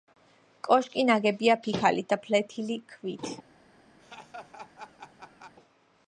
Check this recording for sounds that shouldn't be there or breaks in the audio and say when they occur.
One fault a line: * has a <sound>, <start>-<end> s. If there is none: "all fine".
* has a laugh, 4.0-5.5 s